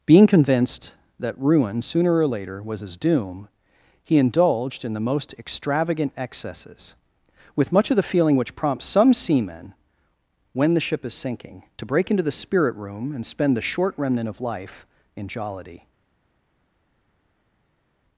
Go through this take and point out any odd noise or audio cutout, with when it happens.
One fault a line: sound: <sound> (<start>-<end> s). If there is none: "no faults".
no faults